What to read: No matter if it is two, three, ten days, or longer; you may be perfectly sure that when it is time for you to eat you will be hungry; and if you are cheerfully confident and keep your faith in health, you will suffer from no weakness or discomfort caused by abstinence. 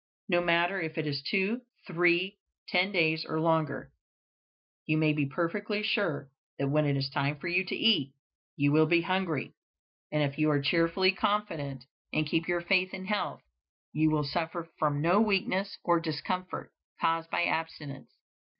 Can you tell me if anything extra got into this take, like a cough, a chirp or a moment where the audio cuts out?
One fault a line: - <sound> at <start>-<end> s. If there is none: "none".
none